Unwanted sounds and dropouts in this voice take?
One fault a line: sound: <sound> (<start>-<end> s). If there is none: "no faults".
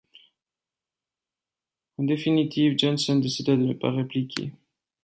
no faults